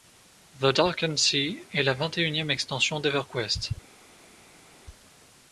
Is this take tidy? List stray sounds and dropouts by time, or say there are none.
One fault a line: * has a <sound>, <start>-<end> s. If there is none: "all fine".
all fine